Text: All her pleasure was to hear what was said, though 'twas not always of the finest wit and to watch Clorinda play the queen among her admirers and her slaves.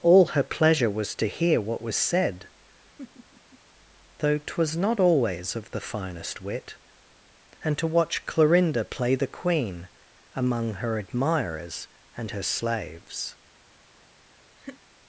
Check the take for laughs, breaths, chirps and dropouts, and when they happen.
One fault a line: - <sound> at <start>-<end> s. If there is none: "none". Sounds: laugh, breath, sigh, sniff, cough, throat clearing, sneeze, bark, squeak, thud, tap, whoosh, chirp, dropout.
- laugh at 3.0-3.6 s
- laugh at 14.6-14.8 s